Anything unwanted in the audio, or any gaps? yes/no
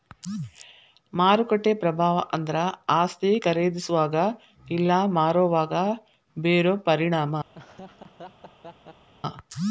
yes